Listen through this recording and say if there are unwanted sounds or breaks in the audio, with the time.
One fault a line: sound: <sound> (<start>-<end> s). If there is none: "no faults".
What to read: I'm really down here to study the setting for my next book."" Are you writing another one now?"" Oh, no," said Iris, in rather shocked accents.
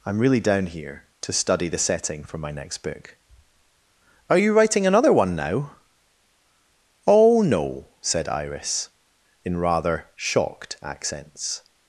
no faults